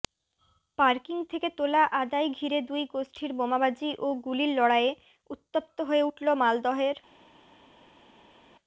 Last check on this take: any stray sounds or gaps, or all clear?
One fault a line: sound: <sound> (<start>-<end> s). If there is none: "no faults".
no faults